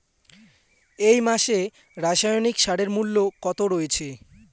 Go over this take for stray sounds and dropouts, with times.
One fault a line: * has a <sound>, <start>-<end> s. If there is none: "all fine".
all fine